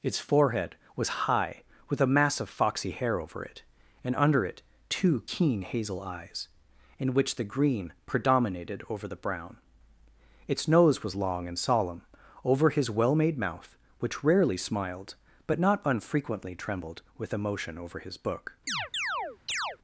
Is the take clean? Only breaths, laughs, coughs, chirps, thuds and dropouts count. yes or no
no